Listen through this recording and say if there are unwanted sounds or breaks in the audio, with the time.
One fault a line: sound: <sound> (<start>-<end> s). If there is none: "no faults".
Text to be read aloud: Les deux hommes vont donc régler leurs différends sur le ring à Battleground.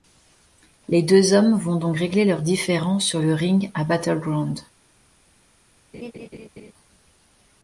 sound: laugh (5.9-6.7 s)